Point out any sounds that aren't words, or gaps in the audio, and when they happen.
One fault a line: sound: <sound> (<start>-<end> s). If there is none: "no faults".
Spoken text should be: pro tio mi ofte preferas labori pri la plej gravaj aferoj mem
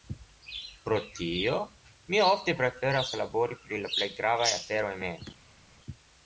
no faults